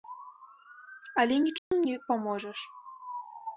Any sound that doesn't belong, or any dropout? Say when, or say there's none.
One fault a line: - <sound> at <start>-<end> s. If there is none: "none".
- dropout at 1.6-1.7 s